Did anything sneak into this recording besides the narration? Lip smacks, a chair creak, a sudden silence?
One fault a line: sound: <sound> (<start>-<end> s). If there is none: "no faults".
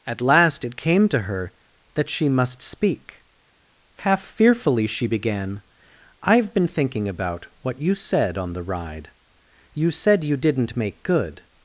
no faults